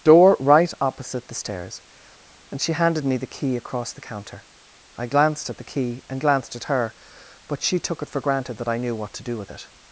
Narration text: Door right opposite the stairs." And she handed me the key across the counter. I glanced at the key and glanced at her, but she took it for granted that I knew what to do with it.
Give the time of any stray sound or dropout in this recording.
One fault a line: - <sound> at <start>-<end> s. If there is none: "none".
none